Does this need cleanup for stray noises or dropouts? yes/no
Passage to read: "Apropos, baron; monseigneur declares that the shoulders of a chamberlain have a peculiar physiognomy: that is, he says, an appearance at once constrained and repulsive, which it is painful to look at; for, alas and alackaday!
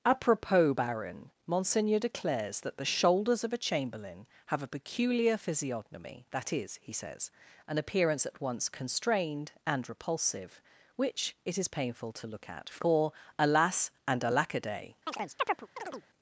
yes